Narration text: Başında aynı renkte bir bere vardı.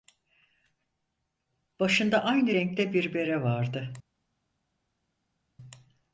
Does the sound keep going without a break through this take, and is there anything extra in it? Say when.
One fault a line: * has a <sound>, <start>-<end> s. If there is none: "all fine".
all fine